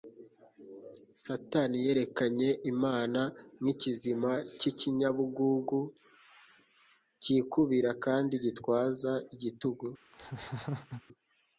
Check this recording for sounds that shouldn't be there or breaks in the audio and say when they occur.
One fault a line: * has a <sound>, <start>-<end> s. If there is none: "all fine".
* has a laugh, 10.1-11.0 s